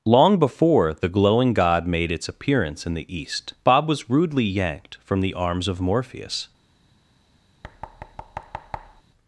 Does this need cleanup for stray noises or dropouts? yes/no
yes